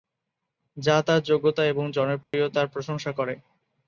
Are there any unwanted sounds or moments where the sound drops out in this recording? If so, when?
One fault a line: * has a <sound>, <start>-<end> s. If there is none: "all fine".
* has a dropout, 2.2-2.3 s